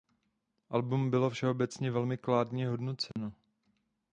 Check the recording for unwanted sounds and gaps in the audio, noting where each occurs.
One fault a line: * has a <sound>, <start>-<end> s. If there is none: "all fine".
* has a dropout, 3.1-3.2 s